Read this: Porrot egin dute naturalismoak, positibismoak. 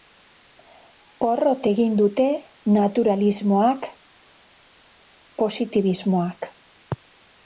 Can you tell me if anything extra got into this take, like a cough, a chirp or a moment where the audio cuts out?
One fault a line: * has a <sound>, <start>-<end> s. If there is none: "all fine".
all fine